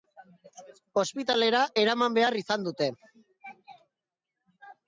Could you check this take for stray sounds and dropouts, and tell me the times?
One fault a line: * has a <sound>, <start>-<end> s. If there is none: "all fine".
all fine